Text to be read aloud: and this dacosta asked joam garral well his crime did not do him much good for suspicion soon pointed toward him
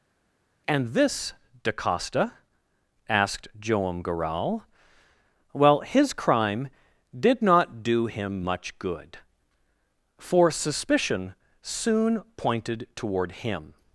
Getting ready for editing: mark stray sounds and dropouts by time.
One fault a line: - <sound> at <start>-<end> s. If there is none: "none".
none